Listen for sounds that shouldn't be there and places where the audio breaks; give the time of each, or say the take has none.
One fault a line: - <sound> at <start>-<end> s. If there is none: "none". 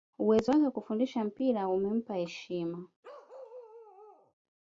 - bark at 3.0-4.3 s